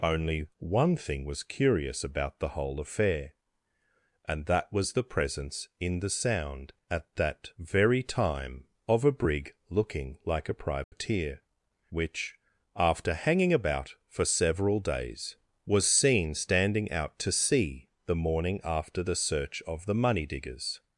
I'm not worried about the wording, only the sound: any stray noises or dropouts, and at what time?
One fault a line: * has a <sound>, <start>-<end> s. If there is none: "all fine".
* has a dropout, 10.8-10.9 s